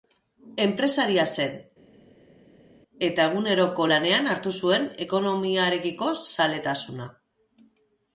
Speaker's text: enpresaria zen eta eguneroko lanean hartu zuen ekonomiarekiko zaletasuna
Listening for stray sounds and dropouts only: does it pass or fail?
pass